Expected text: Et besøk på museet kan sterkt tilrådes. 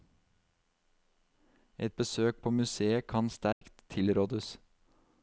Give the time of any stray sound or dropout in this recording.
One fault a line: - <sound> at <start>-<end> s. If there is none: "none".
- dropout at 3.5-3.6 s